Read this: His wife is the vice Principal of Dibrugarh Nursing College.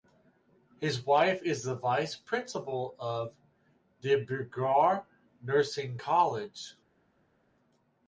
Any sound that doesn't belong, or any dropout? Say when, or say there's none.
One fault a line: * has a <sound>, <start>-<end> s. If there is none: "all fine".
all fine